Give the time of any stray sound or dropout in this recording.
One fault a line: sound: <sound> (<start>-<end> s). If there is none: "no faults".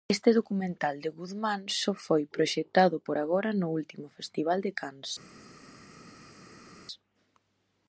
no faults